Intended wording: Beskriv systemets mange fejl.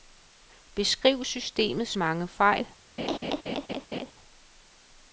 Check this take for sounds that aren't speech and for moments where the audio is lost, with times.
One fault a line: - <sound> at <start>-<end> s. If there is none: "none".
- laugh at 3.0-4.1 s